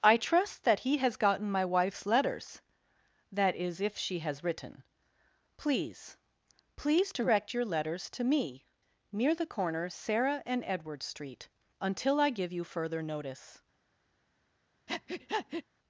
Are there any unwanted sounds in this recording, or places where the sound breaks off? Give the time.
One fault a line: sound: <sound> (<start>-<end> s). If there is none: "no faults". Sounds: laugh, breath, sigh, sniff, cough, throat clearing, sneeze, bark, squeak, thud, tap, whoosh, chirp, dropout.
sound: breath (14.9-15.6 s)